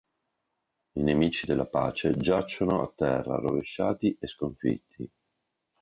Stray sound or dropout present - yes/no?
no